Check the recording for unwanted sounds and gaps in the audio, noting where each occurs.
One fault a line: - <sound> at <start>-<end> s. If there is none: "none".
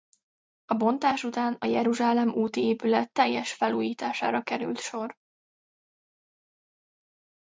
none